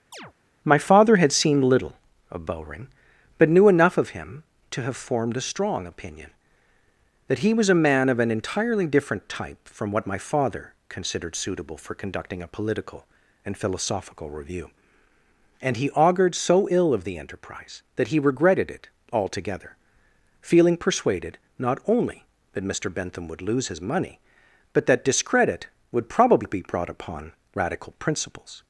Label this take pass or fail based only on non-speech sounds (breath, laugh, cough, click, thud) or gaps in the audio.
fail